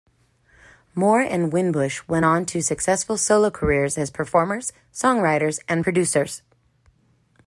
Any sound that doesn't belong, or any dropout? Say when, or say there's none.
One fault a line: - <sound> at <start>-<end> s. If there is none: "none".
none